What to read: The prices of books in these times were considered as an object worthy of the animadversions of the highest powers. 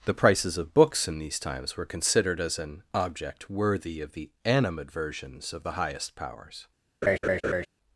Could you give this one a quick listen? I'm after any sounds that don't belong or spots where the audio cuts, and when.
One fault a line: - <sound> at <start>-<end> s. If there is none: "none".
- laugh at 7.0-7.7 s